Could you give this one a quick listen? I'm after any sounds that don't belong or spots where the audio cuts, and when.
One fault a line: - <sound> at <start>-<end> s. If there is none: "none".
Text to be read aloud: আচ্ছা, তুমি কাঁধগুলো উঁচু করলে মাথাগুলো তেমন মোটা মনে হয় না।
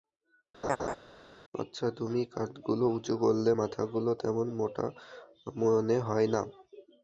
- laugh at 0.6-1.0 s